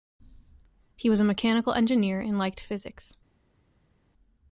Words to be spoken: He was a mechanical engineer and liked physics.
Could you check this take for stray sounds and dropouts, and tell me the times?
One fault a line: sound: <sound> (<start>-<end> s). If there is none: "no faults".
no faults